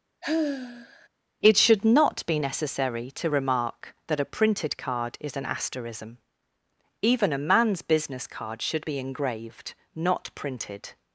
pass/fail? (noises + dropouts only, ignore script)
fail